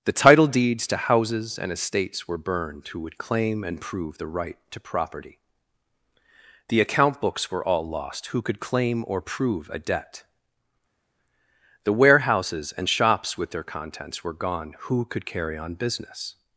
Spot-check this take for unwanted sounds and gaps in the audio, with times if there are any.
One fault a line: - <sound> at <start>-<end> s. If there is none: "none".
none